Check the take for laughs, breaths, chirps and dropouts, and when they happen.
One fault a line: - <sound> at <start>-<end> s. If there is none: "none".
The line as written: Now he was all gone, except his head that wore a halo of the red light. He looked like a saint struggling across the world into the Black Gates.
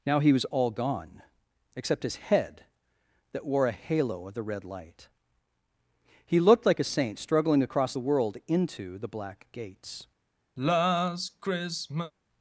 - sigh at 10.6-12.1 s